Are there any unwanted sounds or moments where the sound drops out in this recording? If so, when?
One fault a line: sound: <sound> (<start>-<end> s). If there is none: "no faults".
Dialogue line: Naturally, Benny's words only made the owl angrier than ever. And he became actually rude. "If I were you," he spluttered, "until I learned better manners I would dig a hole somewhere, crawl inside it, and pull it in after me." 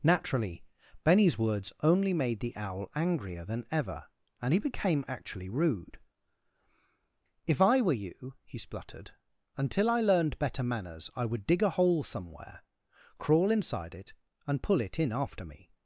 no faults